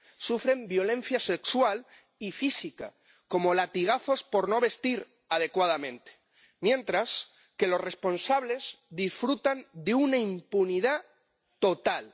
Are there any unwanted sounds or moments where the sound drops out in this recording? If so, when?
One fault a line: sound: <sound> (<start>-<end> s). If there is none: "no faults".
no faults